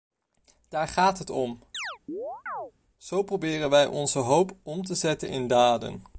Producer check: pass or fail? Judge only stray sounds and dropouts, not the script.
fail